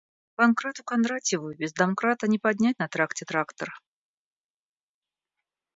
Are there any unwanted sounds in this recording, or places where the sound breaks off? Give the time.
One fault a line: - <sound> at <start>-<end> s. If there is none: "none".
none